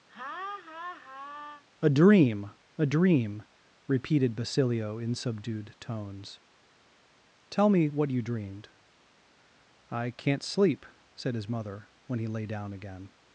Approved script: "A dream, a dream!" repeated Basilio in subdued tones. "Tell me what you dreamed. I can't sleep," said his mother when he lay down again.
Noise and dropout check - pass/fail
fail